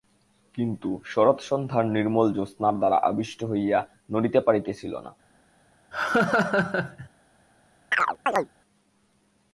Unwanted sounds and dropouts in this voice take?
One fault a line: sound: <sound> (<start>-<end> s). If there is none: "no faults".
sound: laugh (5.9-7.1 s)
sound: chirp (7.9-8.5 s)